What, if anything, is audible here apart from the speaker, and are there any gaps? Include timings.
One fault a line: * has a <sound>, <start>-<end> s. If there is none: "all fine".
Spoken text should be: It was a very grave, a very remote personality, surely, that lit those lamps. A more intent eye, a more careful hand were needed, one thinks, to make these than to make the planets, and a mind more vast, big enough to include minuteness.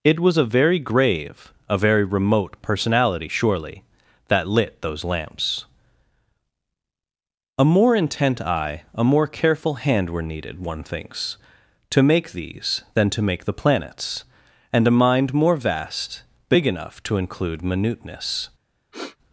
* has a sniff, 18.9-19.2 s